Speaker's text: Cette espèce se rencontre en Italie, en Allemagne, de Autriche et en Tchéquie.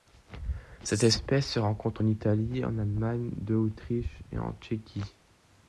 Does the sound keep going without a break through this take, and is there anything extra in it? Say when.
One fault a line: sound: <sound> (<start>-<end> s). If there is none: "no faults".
no faults